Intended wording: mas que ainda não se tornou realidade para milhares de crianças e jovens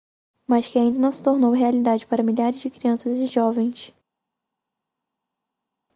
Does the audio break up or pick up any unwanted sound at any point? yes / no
no